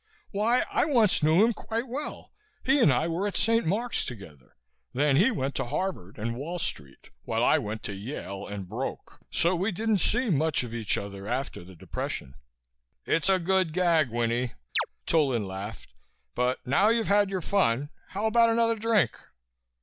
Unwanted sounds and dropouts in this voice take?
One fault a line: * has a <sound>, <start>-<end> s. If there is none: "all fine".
* has a chirp, 14.8-14.9 s